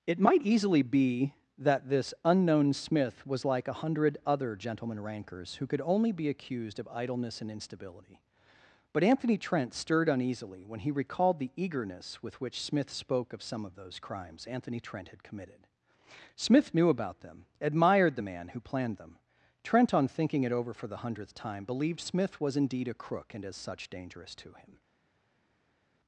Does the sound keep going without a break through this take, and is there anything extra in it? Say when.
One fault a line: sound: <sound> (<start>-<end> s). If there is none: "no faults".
no faults